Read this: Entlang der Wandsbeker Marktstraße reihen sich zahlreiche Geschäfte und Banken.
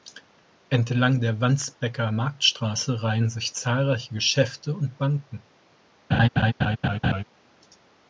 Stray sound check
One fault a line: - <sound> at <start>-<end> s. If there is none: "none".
- laugh at 6.1-7.2 s